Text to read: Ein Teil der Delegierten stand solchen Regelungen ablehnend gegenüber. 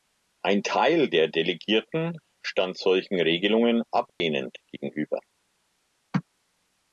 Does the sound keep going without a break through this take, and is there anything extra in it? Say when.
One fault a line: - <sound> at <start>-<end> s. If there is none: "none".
- dropout at 4.1-4.2 s